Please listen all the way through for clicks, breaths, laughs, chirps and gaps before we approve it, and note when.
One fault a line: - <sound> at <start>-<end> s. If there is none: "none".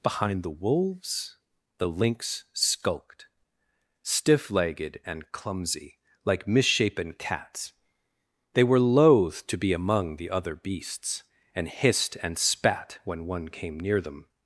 none